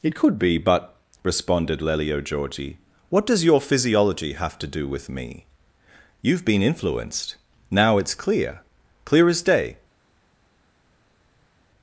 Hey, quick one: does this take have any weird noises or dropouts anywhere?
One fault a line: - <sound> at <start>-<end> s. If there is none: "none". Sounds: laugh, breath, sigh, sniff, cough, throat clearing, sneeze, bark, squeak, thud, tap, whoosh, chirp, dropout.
none